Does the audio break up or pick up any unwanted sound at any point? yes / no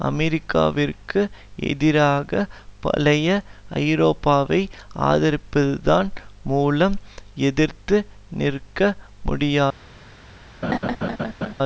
yes